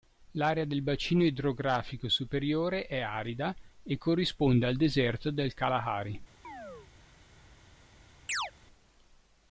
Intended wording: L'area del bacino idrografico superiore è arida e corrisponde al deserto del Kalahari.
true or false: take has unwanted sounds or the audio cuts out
true